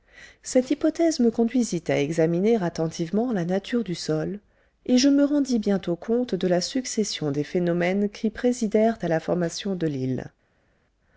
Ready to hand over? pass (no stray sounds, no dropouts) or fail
pass